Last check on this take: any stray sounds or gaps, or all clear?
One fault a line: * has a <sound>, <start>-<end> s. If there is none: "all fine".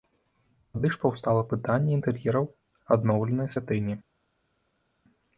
all fine